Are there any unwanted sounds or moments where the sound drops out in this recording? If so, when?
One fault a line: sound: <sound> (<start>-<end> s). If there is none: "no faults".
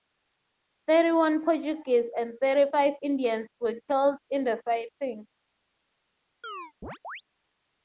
sound: chirp (6.4-7.2 s)